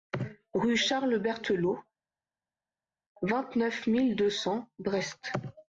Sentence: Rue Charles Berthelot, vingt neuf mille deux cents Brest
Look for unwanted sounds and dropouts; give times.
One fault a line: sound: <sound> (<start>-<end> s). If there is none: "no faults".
no faults